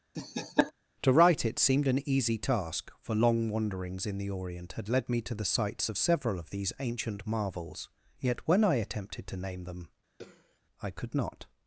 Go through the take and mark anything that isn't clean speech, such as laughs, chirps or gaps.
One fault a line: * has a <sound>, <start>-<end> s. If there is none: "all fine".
* has a laugh, 0.1-0.7 s
* has a throat clearing, 10.2-10.6 s